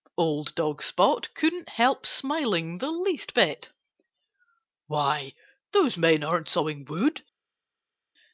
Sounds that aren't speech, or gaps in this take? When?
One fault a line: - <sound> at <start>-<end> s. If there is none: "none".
none